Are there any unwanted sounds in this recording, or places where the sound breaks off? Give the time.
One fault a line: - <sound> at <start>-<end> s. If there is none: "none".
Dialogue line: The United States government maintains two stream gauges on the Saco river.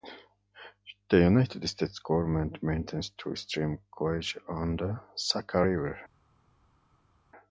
none